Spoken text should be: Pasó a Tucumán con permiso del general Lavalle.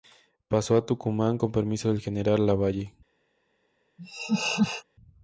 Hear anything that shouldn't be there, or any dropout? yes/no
yes